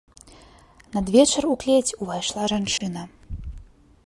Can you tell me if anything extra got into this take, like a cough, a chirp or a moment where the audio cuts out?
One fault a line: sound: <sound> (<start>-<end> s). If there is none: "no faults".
sound: dropout (2.8-2.8 s)